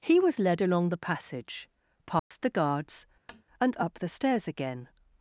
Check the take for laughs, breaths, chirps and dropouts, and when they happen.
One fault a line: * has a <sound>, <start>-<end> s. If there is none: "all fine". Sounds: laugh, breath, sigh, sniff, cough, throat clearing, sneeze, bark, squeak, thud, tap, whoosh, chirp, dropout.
* has a dropout, 2.2-2.3 s
* has a tap, 3.3-3.4 s